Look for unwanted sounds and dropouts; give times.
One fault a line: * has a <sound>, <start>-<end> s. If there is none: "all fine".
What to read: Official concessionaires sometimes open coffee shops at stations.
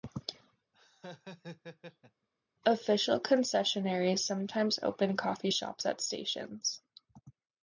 * has a laugh, 0.7-2.3 s